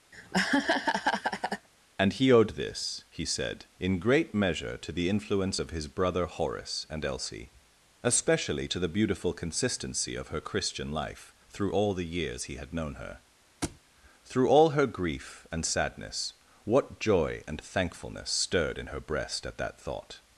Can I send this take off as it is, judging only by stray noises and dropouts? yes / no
no